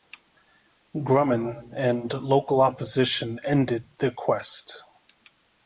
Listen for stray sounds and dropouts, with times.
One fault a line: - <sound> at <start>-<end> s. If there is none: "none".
none